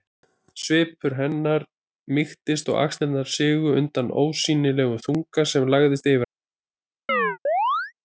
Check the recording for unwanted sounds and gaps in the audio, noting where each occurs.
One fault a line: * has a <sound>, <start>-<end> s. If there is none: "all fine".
* has a chirp, 7.1-7.9 s